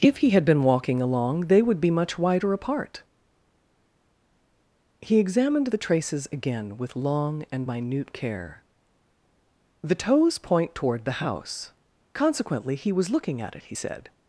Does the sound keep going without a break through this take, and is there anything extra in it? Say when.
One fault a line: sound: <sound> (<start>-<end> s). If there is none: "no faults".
no faults